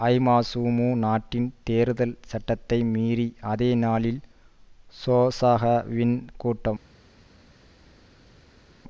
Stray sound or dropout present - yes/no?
no